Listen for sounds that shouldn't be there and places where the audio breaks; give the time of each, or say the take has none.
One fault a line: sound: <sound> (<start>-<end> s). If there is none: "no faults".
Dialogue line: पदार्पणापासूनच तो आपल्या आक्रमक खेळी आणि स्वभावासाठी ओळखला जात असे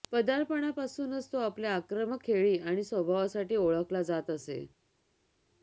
no faults